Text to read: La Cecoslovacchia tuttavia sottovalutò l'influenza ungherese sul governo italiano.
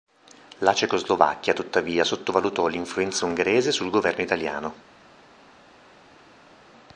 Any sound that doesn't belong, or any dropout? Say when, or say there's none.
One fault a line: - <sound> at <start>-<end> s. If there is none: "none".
none